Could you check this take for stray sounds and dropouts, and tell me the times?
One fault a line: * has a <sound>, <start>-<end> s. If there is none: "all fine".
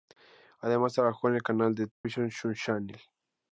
* has a dropout, 1.9-2.0 s